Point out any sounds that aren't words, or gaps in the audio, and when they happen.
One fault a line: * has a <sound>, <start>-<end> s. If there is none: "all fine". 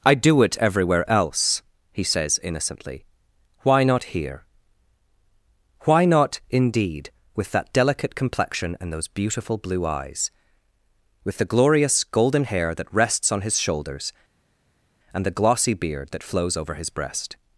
all fine